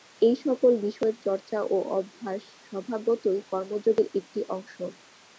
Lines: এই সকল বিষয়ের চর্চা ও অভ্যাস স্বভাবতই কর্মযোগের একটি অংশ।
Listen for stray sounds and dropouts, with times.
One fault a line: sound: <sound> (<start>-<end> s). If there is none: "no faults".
no faults